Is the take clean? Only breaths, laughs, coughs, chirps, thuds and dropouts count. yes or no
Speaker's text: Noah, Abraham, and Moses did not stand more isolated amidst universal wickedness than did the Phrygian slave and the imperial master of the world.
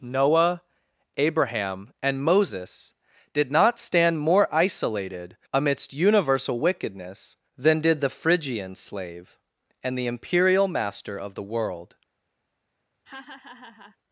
no